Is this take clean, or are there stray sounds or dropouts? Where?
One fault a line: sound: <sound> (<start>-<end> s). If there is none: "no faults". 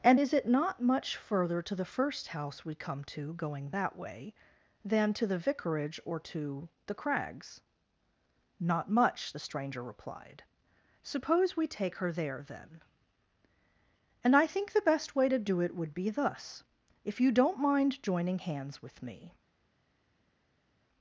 no faults